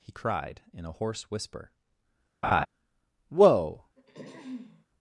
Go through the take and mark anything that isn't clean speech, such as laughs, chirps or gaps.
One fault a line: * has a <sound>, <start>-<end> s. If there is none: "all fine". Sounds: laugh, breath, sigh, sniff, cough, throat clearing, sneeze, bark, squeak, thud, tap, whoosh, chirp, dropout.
* has a laugh, 2.4-2.7 s
* has a throat clearing, 4.0-4.9 s